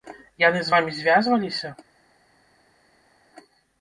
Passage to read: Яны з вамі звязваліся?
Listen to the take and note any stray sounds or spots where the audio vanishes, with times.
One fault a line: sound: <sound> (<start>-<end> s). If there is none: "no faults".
no faults